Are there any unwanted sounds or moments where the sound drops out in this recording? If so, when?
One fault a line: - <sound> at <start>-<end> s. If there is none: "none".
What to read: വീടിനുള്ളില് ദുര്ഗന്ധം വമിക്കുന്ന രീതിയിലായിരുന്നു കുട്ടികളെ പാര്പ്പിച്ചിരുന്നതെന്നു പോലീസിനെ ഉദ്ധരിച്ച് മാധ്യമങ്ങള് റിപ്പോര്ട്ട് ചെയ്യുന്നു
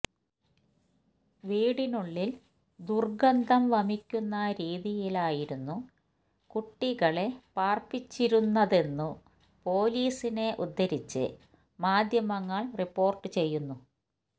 none